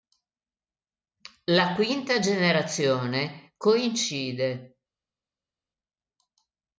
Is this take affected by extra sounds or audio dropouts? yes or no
no